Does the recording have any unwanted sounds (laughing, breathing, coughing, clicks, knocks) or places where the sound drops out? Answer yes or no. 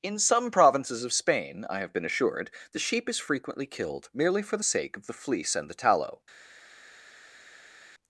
no